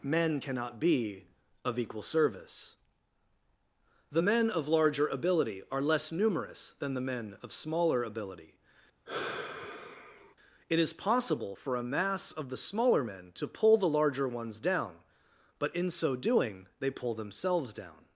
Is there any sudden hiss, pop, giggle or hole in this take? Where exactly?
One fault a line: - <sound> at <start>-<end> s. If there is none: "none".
- sigh at 9.1-10.4 s